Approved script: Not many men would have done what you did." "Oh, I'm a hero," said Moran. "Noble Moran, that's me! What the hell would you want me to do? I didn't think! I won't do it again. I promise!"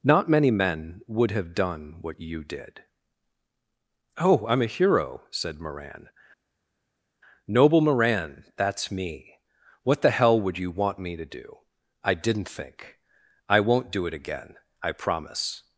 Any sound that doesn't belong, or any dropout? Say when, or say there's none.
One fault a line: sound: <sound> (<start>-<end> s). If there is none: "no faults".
no faults